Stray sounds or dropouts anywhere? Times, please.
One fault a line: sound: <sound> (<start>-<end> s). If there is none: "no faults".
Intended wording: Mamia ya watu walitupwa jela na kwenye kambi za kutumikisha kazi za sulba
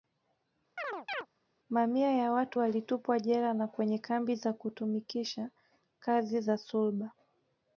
sound: chirp (0.8-1.3 s)